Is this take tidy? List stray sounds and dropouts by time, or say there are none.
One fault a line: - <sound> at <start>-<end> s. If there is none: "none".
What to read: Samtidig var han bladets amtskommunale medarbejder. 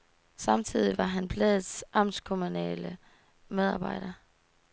none